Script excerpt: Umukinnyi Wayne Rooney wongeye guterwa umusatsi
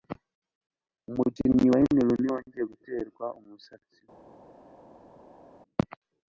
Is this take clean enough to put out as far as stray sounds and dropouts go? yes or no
yes